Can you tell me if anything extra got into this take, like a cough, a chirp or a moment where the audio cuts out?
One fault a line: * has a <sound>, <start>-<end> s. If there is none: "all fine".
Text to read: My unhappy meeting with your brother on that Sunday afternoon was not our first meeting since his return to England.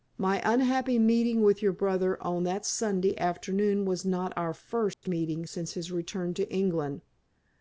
* has a dropout, 4.9-5.0 s